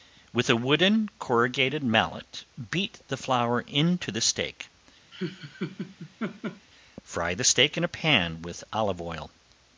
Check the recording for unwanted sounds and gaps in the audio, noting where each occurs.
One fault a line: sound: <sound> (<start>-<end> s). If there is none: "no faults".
sound: laugh (5.1-6.7 s)